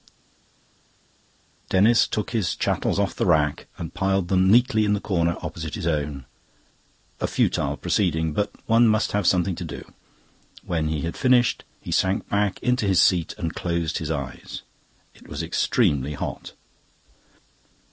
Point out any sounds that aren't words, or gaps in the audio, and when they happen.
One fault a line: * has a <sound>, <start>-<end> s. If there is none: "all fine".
all fine